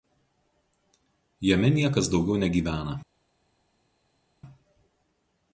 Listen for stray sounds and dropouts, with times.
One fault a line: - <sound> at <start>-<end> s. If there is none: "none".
none